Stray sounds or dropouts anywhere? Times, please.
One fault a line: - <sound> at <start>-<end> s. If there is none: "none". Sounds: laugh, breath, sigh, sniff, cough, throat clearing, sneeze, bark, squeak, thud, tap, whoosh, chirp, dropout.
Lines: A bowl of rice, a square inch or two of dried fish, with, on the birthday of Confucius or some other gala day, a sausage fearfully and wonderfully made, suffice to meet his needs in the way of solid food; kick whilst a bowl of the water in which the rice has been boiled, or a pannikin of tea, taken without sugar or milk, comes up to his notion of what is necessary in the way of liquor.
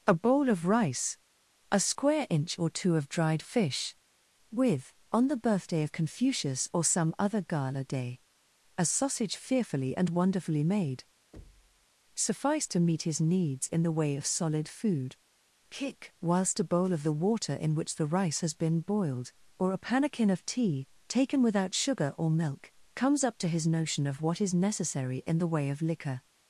- thud at 11.3-11.9 s